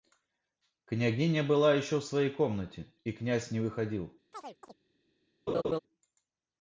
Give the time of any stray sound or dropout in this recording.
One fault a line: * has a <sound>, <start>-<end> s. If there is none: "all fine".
* has a chirp, 4.3-4.8 s
* has a laugh, 5.5-5.8 s